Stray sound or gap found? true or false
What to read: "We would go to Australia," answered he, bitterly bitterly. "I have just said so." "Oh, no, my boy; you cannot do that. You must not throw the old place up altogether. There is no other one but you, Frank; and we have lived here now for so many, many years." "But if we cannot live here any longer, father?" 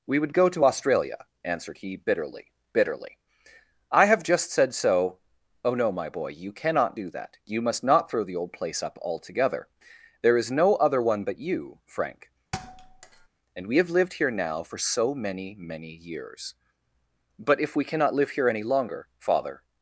true